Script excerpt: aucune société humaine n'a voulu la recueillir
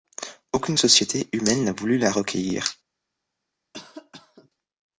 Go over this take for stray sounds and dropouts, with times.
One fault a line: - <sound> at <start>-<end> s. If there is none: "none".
- cough at 3.7-4.5 s